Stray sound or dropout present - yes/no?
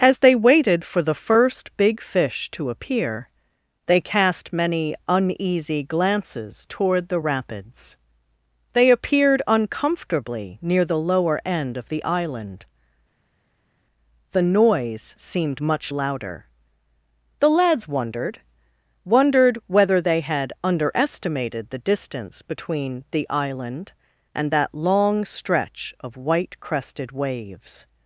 no